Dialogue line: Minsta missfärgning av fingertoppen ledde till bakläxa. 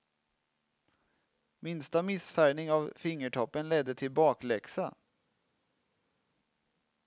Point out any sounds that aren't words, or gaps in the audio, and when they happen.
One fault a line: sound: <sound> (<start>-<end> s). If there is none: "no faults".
no faults